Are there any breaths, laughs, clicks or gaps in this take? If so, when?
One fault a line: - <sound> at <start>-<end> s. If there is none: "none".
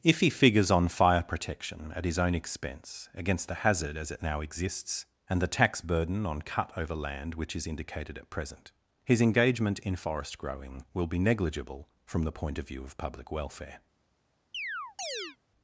- chirp at 14.5-15.4 s